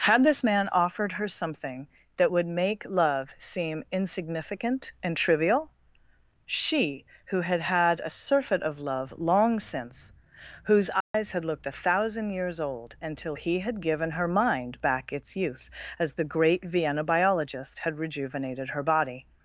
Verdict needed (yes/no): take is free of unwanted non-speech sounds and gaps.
no